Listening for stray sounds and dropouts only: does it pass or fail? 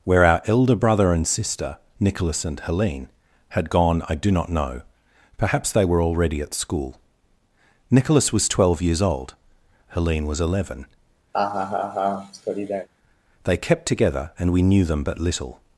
fail